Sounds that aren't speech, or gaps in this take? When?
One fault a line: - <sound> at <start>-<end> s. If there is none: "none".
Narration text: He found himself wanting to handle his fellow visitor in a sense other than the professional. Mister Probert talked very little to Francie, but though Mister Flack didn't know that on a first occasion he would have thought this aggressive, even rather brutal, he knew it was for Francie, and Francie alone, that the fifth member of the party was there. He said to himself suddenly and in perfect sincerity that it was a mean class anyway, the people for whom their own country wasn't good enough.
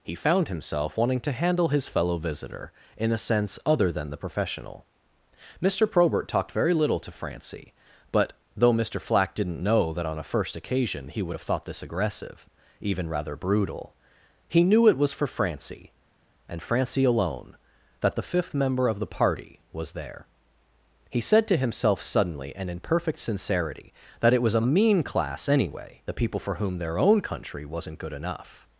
none